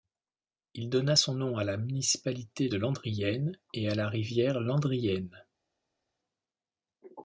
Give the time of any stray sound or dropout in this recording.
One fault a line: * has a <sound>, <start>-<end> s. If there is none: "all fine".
all fine